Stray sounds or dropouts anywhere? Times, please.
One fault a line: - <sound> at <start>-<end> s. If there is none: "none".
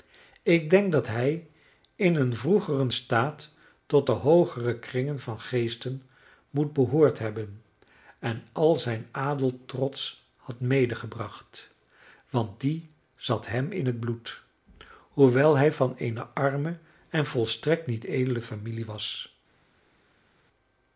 none